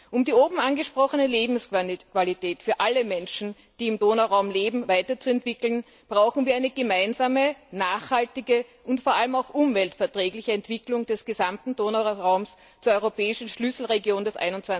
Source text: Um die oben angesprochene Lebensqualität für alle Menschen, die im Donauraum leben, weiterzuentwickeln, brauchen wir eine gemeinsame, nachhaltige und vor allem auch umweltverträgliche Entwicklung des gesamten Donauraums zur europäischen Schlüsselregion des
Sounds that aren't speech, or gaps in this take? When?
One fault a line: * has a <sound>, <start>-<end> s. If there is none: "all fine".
all fine